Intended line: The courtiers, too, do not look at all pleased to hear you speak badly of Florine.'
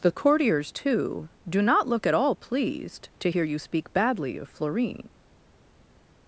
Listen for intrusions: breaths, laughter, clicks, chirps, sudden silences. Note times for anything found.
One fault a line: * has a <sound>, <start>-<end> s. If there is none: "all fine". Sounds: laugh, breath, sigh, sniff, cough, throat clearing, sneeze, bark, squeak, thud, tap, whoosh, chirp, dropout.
all fine